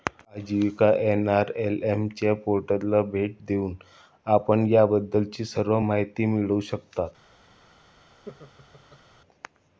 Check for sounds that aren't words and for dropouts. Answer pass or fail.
fail